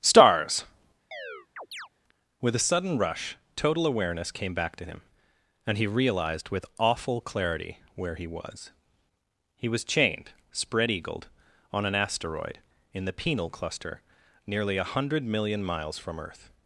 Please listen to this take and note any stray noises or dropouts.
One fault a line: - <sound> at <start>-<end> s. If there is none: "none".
- chirp at 1.1-1.9 s